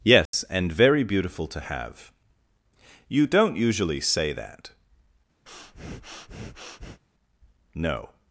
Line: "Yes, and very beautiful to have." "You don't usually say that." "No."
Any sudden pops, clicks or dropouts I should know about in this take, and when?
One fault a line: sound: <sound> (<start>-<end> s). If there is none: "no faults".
sound: dropout (0.3-0.3 s)
sound: breath (5.5-7.0 s)